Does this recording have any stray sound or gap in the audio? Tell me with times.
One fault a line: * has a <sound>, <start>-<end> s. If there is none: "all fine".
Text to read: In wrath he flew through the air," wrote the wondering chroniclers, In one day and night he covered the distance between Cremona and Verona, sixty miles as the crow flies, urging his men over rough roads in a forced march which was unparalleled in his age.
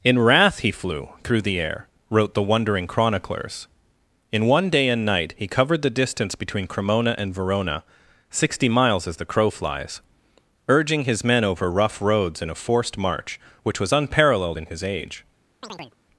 * has a chirp, 15.6-16.0 s